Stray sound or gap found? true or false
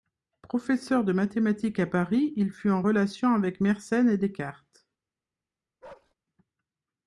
true